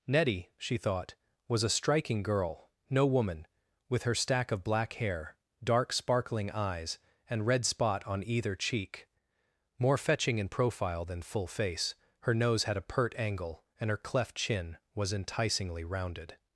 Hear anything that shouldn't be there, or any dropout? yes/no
no